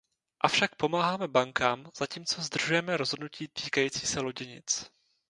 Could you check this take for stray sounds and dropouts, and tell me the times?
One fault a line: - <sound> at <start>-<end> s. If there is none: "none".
none